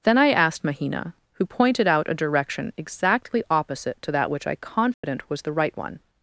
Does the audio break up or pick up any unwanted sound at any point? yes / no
yes